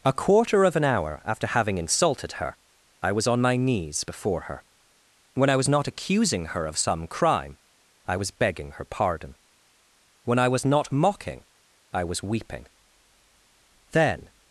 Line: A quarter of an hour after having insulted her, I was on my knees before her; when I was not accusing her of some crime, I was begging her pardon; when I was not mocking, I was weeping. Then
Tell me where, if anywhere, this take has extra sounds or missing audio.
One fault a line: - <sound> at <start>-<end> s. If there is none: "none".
none